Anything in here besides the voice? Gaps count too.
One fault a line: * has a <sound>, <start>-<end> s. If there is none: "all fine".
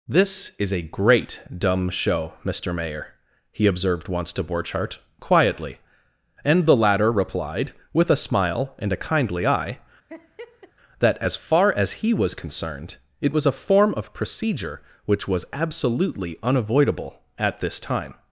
* has a laugh, 10.1-10.7 s